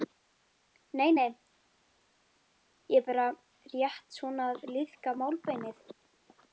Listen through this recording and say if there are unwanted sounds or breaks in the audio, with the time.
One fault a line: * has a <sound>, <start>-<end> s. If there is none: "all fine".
all fine